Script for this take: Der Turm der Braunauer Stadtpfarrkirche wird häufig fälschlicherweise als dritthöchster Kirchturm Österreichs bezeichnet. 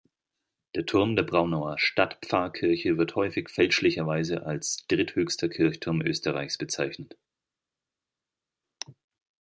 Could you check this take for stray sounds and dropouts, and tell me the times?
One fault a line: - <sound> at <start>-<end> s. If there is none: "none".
none